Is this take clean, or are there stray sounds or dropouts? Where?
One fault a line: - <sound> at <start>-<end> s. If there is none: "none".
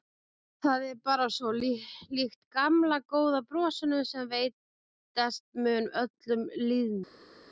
none